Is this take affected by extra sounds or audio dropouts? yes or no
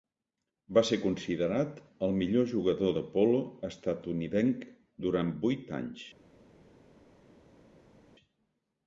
no